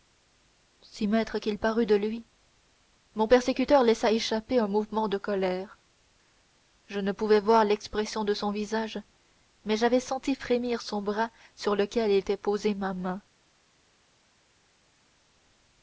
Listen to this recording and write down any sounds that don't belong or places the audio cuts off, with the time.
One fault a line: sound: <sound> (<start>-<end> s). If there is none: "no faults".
no faults